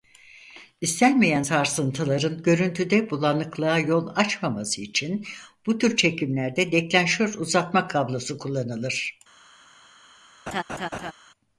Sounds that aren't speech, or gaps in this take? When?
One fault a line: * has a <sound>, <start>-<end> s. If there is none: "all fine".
* has a laugh, 10.5-11.1 s